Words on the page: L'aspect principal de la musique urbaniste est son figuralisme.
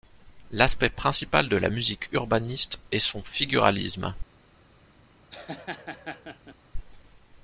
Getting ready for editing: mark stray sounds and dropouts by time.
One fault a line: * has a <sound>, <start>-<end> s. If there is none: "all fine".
* has a laugh, 5.3-6.6 s